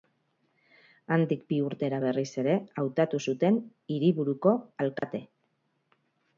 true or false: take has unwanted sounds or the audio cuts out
true